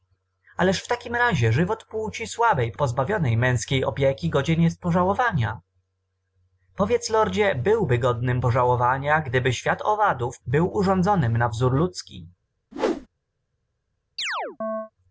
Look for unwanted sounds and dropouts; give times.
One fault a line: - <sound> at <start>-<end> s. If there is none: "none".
- whoosh at 12.7-13.1 s
- chirp at 14.2-14.9 s